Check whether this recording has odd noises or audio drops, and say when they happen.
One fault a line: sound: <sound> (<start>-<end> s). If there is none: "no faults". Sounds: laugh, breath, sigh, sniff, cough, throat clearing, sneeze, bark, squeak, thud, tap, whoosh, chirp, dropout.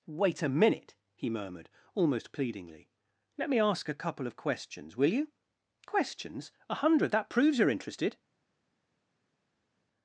no faults